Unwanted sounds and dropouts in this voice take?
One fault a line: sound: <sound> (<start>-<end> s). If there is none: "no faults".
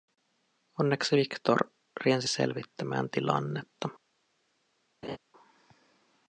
sound: laugh (5.0-5.2 s)